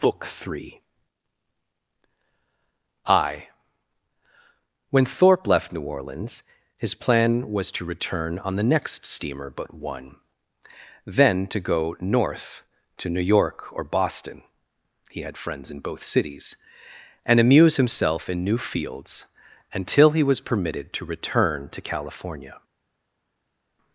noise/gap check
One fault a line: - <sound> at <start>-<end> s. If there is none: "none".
none